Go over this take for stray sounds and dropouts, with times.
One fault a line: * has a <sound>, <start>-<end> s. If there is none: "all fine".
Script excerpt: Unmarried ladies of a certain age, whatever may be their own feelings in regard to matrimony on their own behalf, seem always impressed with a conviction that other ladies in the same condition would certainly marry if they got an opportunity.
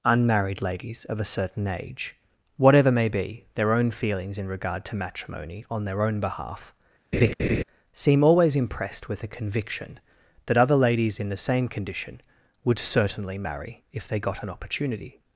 * has a laugh, 7.1-7.6 s